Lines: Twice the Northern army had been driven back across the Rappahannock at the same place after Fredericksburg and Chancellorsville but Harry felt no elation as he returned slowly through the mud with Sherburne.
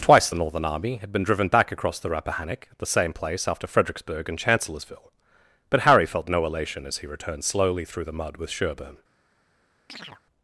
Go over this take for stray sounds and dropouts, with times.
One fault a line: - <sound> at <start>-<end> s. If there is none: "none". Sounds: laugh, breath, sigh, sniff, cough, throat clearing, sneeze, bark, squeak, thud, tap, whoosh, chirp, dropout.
- chirp at 9.9-10.2 s